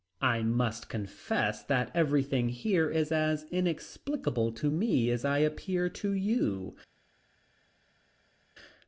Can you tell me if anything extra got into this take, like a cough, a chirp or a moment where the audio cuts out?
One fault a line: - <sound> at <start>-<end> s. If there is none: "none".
none